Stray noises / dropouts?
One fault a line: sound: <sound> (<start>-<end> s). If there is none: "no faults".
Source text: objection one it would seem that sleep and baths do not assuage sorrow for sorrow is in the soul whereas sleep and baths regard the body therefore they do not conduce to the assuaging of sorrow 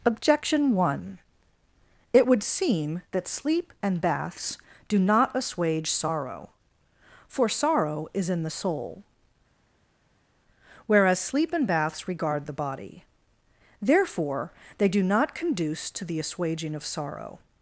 no faults